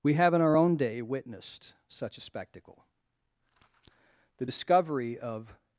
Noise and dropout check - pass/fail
pass